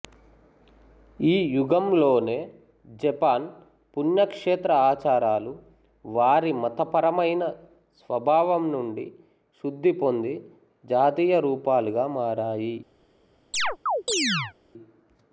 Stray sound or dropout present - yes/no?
yes